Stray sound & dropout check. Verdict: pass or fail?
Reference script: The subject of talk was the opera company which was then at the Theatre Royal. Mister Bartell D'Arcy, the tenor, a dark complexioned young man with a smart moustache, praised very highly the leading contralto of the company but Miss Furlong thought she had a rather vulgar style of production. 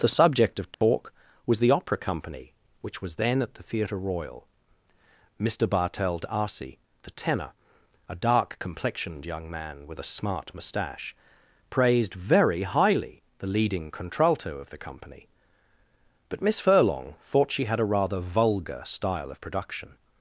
fail